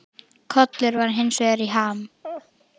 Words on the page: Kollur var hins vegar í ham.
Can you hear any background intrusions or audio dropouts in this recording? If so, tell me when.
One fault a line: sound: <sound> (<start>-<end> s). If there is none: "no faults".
sound: laugh (2.2-2.5 s)